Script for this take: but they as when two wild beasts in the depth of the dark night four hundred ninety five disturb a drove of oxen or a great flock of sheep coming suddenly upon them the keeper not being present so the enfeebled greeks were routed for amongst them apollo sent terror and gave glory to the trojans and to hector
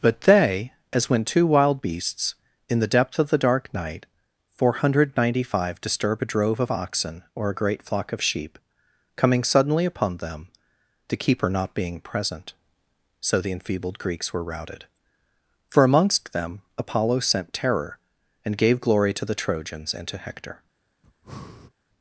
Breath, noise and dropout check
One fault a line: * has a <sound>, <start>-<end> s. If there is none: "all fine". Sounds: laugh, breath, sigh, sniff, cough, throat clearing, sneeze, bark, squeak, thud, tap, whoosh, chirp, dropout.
* has a breath, 21.0-21.7 s